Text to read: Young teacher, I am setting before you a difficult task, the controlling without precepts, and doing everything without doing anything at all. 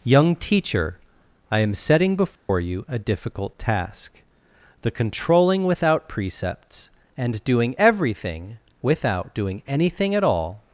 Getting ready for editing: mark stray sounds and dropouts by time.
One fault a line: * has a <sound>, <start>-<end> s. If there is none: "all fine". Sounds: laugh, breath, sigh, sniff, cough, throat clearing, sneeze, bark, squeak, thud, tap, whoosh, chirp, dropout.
* has a dropout, 2.4-2.5 s